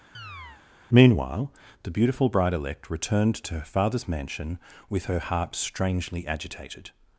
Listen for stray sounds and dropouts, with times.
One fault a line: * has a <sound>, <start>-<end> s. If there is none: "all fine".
* has a chirp, 0.1-0.6 s